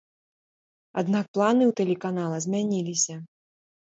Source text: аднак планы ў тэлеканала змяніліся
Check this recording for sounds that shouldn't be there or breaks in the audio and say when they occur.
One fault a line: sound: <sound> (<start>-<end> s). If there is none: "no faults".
no faults